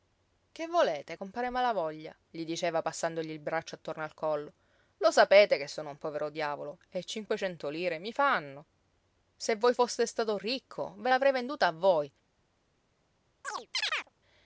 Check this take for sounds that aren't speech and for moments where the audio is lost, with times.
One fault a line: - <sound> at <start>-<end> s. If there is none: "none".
- chirp at 13.4-14.1 s